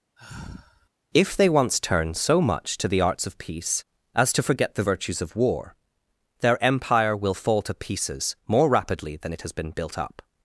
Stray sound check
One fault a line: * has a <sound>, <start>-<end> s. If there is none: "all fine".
* has a sigh, 0.2-0.9 s